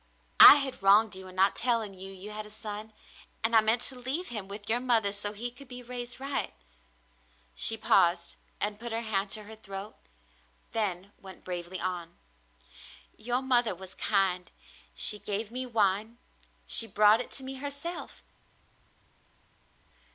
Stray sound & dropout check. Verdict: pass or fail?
pass